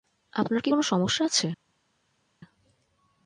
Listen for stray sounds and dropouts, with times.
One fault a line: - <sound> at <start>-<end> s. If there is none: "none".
none